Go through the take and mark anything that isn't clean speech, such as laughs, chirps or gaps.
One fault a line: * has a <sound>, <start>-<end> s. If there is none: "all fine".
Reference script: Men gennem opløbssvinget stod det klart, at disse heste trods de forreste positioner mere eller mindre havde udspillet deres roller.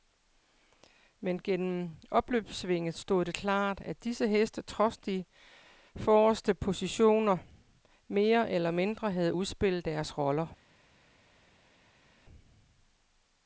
all fine